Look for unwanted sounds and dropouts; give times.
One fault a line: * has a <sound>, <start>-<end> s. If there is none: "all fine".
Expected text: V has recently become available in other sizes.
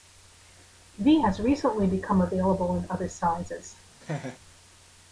* has a laugh, 4.0-4.4 s